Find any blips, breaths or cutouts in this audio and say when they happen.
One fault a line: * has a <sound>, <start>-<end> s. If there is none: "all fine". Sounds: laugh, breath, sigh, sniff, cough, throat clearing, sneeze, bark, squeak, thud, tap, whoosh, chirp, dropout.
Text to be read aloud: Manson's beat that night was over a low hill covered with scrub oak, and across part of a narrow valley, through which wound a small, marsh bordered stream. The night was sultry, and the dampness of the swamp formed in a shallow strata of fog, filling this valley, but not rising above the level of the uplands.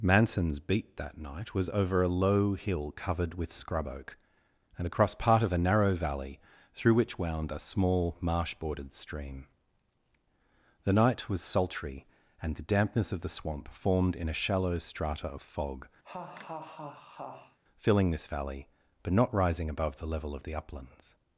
* has a laugh, 16.0-17.6 s